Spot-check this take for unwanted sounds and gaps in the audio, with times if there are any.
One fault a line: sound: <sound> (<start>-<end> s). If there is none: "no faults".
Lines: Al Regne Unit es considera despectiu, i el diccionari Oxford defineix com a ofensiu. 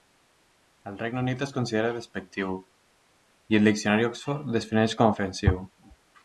no faults